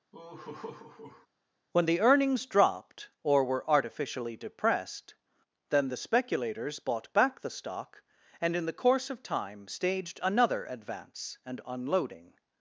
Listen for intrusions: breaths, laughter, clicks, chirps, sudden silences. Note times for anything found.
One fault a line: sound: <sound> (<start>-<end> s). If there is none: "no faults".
sound: laugh (0.1-1.3 s)